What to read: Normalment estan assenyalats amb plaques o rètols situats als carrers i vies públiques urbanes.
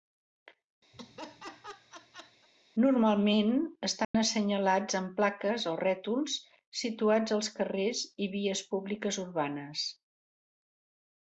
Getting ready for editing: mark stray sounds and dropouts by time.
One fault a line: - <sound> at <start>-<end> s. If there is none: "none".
- laugh at 0.9-2.5 s
- dropout at 4.0-4.1 s